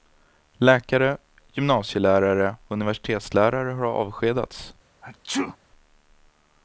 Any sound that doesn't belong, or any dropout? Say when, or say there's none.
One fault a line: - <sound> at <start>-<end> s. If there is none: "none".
- sneeze at 5.0-5.6 s